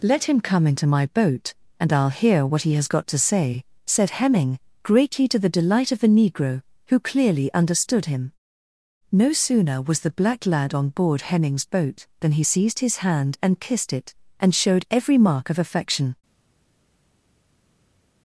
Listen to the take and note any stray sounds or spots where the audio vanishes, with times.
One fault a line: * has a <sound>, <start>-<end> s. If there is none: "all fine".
all fine